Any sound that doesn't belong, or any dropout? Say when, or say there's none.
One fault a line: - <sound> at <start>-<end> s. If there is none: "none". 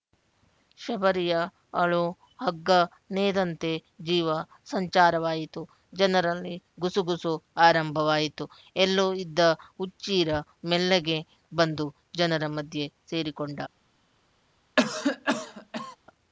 - cough at 14.8-16.0 s